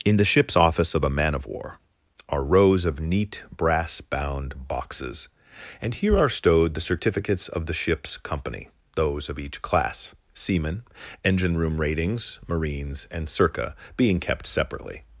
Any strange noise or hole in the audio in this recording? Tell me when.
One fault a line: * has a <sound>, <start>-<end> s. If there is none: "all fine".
all fine